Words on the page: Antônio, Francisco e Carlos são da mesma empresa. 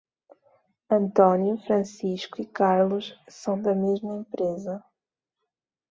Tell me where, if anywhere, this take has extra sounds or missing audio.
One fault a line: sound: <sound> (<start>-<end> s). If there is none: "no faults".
no faults